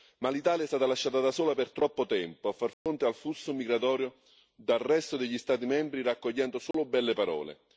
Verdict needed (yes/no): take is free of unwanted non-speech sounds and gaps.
no